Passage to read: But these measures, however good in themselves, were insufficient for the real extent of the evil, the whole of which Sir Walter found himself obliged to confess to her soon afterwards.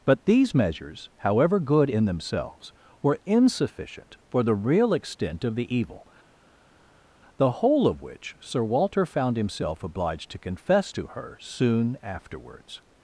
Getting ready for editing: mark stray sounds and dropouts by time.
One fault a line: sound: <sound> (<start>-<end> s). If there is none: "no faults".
no faults